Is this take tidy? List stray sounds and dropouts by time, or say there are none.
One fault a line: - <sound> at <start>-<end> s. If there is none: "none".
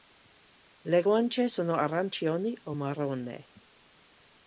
none